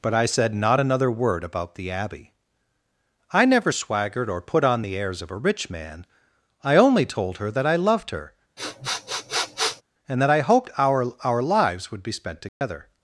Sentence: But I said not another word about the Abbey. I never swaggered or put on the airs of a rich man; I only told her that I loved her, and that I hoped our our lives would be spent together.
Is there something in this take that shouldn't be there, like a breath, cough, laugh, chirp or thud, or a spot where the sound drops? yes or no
yes